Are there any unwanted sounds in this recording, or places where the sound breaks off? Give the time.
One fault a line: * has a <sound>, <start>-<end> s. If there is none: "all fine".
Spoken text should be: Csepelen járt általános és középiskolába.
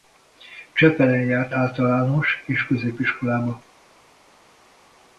all fine